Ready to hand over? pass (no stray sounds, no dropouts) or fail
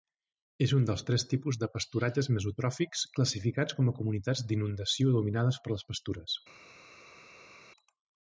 pass